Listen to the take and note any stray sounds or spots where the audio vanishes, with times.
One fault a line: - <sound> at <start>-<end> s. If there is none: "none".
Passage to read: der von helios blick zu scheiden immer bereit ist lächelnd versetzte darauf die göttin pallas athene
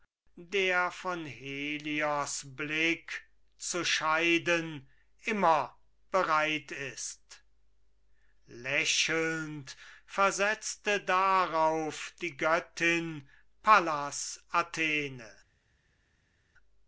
none